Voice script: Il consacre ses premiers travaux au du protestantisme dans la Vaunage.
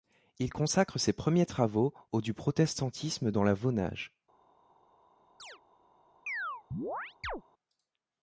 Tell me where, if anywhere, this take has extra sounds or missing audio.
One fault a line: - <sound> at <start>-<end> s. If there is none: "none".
- chirp at 5.4-5.6 s
- chirp at 6.3-7.4 s